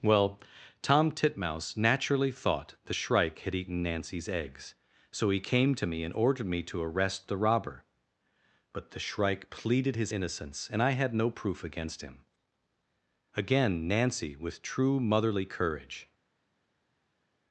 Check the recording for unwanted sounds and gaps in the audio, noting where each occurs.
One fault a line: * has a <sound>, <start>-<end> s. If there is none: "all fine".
all fine